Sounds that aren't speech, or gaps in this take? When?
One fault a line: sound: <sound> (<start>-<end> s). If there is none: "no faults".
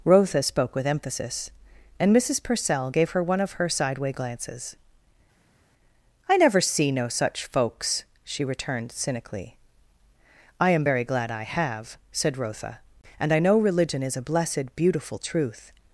no faults